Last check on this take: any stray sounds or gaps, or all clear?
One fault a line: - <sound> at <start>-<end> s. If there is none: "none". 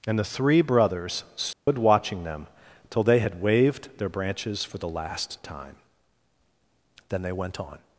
- dropout at 1.5-1.7 s